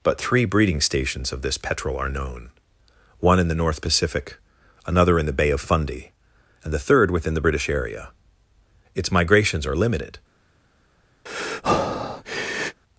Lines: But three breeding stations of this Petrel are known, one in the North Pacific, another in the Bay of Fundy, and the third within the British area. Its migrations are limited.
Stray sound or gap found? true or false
true